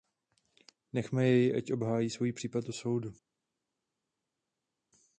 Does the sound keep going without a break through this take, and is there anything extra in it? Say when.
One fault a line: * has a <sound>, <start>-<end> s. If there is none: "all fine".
all fine